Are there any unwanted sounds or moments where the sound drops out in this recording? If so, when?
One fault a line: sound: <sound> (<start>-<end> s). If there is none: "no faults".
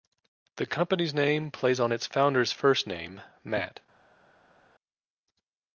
no faults